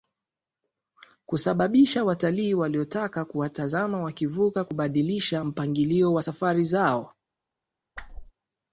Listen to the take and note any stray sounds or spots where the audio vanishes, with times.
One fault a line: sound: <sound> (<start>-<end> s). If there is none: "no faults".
sound: whoosh (8.0-8.3 s)